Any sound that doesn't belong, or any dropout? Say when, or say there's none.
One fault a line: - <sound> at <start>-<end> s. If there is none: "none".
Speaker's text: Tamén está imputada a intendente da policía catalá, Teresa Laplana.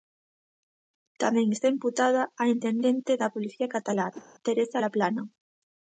- whoosh at 4.1-4.3 s